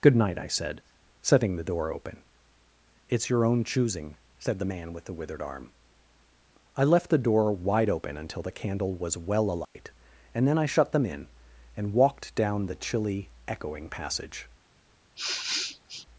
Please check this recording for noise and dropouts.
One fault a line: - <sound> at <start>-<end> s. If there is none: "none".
- dropout at 9.6-9.8 s
- sniff at 15.2-16.1 s